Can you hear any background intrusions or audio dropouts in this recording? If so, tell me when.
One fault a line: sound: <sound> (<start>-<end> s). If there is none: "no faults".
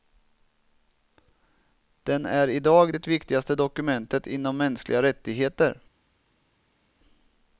no faults